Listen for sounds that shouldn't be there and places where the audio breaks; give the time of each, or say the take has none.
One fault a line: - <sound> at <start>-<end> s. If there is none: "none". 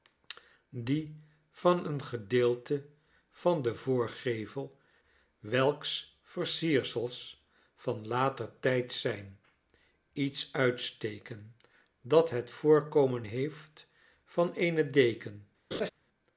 - laugh at 15.7-15.9 s